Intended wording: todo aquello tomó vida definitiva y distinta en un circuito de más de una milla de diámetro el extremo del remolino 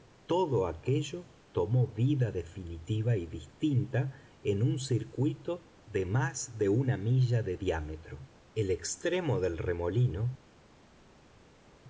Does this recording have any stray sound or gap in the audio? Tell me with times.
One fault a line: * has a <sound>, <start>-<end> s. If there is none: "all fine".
all fine